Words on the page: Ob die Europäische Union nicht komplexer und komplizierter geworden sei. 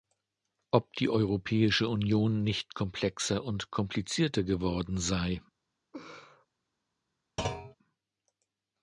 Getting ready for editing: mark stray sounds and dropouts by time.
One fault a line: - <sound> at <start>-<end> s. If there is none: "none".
- laugh at 5.9-6.5 s
- thud at 7.4-7.8 s